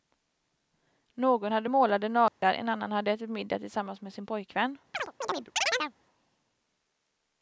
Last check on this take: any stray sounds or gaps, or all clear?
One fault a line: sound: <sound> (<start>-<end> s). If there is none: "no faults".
sound: dropout (2.3-2.4 s)
sound: chirp (4.9-5.9 s)